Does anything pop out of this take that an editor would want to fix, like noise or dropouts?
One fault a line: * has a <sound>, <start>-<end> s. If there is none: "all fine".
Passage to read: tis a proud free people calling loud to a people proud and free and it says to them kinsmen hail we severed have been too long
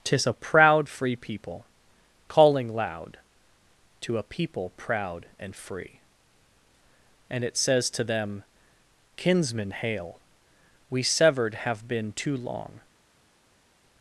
all fine